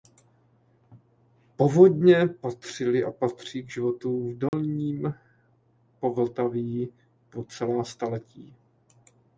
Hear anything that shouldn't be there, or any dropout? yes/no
yes